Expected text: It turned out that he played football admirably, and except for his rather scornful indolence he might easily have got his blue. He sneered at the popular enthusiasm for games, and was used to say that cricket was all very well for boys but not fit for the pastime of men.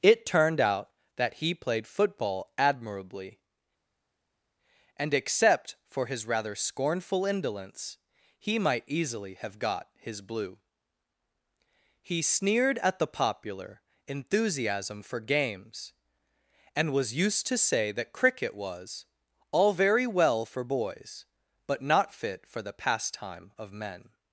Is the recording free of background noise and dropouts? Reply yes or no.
yes